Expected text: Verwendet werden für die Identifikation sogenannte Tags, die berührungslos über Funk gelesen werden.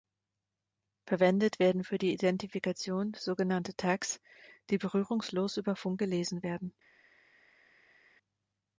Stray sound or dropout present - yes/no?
no